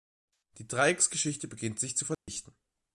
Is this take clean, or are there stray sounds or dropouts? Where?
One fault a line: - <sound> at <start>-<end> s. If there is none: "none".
- dropout at 2.1-2.3 s